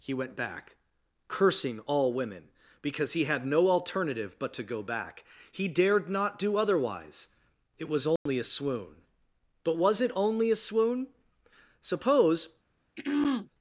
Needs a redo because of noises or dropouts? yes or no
yes